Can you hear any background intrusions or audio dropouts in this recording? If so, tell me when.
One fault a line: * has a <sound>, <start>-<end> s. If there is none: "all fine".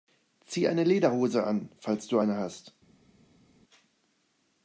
all fine